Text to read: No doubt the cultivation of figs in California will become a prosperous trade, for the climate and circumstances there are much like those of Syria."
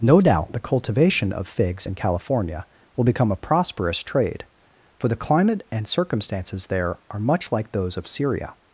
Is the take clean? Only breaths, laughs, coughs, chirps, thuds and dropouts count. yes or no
yes